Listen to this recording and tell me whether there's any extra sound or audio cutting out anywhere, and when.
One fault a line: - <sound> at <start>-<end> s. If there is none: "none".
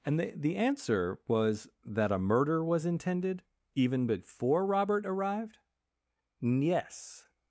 none